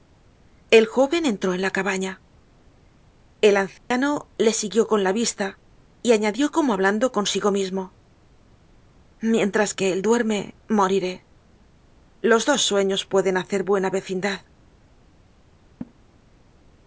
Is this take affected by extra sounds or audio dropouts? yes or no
yes